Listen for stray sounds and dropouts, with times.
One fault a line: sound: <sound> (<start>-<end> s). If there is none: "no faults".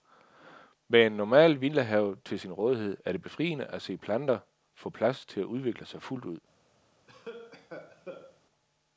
sound: cough (7.1-8.4 s)